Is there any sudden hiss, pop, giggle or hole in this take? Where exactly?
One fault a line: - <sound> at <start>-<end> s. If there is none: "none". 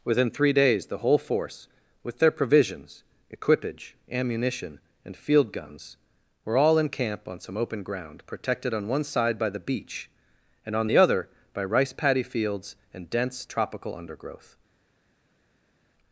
none